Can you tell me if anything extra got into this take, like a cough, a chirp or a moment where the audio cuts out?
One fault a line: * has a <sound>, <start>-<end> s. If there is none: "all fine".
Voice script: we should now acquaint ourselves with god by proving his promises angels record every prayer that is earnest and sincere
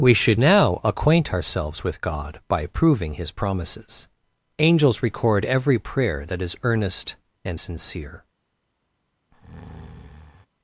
* has a breath, 9.3-10.5 s